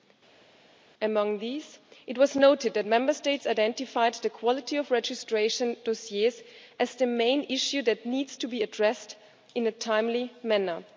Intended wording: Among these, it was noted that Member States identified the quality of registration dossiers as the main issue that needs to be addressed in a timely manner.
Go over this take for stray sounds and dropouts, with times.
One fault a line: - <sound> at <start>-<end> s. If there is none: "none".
none